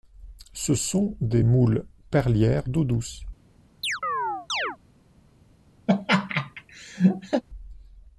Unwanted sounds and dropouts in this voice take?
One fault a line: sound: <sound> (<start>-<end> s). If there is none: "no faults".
sound: chirp (3.8-4.8 s)
sound: laugh (5.9-7.4 s)